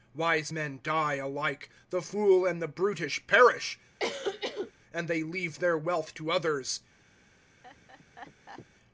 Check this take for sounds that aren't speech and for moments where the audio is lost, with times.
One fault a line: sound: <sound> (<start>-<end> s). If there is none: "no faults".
sound: cough (4.0-4.7 s)
sound: laugh (7.6-8.7 s)